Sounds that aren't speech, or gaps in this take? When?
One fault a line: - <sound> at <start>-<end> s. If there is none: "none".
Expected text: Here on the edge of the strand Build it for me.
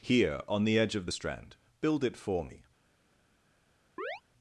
- chirp at 4.0-4.2 s